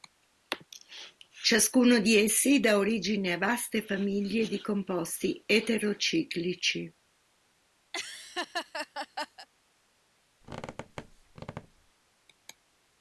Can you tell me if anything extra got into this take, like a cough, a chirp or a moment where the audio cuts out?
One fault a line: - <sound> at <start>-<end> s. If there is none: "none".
- laugh at 7.9-9.5 s
- squeak at 10.4-11.9 s